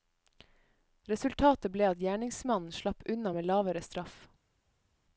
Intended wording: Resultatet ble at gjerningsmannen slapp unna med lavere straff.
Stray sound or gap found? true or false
false